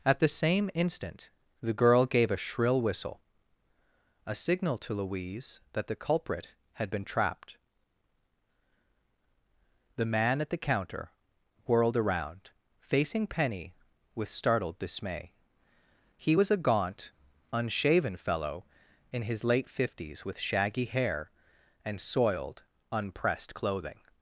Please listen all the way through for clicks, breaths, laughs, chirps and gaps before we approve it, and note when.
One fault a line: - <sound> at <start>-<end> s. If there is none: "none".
none